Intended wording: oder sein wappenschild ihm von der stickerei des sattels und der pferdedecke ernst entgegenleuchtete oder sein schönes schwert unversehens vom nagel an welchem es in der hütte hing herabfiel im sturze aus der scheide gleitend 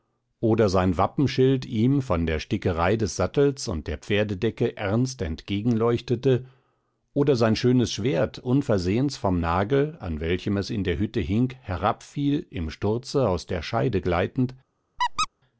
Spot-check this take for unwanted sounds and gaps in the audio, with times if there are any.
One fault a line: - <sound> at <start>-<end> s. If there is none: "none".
- squeak at 15.0-15.3 s